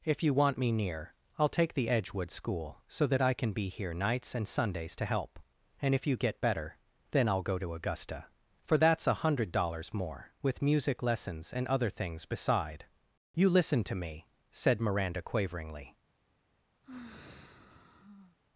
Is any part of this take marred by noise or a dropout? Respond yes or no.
yes